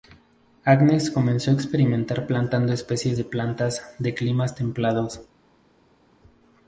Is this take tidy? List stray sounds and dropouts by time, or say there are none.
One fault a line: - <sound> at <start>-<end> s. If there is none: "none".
none